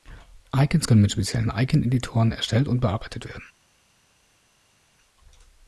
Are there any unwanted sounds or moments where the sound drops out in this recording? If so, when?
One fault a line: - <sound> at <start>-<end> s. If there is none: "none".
none